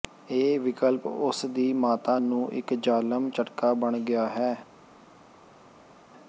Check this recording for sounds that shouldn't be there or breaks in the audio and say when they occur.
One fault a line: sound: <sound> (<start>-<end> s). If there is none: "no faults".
no faults